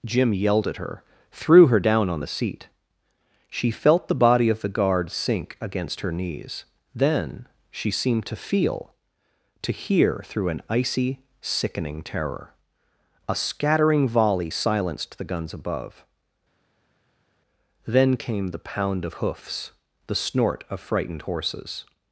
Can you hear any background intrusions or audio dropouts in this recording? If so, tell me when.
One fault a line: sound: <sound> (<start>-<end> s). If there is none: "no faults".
no faults